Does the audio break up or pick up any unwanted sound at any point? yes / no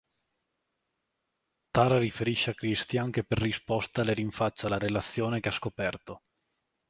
no